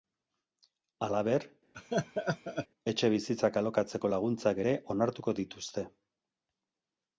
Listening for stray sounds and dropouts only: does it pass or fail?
fail